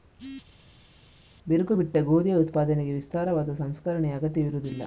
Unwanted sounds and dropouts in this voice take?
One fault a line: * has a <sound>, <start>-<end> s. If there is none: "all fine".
all fine